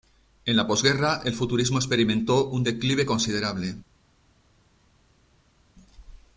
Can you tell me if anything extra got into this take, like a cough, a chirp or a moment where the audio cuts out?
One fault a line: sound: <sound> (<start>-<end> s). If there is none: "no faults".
no faults